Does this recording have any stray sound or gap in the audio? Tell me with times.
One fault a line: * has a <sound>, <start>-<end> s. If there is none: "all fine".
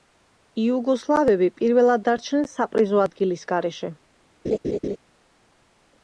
* has a laugh, 4.4-5.0 s